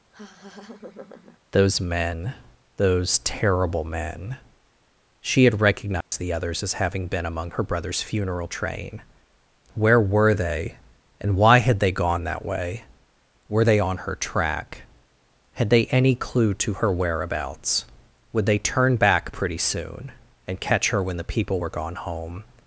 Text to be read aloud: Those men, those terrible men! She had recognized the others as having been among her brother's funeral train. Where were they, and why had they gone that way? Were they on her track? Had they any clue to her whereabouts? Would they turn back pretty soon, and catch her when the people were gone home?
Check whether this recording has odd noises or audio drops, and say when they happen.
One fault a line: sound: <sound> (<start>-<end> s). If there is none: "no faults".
sound: laugh (0.1-1.4 s)
sound: dropout (6.0-6.1 s)